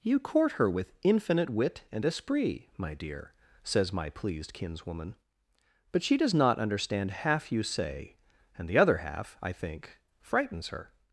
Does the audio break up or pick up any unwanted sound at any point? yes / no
no